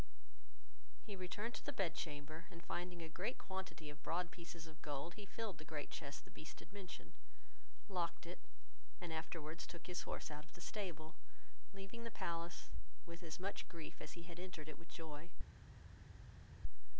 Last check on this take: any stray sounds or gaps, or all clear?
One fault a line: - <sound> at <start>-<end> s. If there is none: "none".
none